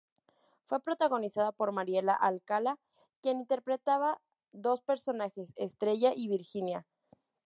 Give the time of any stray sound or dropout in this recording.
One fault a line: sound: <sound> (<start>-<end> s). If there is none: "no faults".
no faults